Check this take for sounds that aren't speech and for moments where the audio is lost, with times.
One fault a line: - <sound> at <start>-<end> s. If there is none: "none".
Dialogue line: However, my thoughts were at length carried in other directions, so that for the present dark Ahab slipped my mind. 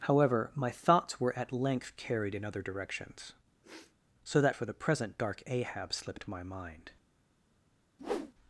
- sniff at 3.6-4.0 s
- whoosh at 8.0-8.3 s